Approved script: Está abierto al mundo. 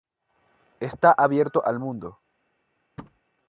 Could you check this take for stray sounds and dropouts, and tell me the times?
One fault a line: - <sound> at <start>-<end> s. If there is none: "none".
- thud at 3.0-3.2 s